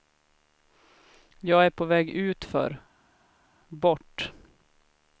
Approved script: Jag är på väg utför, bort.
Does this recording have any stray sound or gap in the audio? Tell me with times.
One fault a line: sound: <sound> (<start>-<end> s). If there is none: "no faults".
no faults